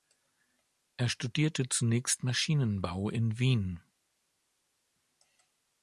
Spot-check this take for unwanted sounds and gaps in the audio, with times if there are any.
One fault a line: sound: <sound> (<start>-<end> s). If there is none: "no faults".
no faults